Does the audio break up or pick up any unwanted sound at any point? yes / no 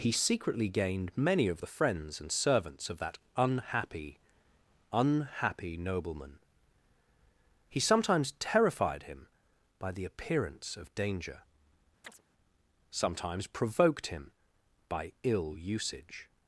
yes